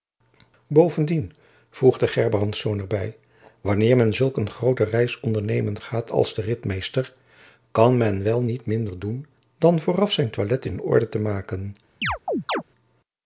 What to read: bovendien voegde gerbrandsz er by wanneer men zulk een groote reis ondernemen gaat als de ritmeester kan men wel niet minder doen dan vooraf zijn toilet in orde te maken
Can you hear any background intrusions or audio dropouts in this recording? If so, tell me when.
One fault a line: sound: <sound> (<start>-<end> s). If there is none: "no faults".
sound: chirp (12.0-12.6 s)